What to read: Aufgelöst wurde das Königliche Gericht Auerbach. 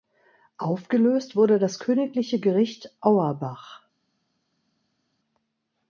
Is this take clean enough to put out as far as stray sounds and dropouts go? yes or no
yes